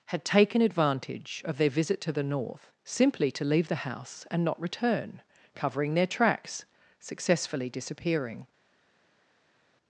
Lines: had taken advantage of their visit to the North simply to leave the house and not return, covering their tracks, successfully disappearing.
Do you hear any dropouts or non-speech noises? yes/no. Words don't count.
no